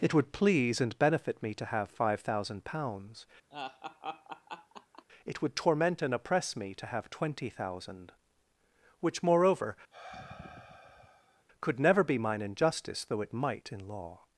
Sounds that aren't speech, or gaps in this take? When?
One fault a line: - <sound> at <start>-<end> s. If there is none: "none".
- laugh at 3.5-5.0 s
- sigh at 9.9-11.4 s